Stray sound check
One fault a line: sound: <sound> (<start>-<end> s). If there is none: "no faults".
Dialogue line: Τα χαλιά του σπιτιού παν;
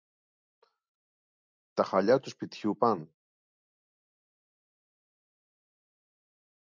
no faults